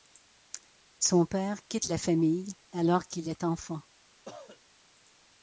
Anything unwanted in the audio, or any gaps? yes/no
yes